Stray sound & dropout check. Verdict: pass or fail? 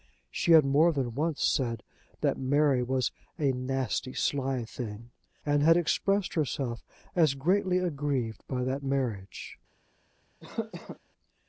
fail